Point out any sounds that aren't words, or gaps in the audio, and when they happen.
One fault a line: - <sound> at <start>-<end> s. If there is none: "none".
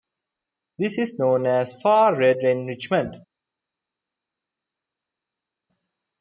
none